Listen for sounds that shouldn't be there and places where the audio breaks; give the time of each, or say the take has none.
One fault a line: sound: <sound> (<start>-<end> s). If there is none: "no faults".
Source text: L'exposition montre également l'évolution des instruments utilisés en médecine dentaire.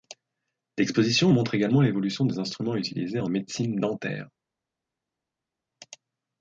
no faults